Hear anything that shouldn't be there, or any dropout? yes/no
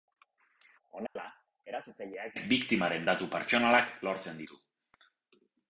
yes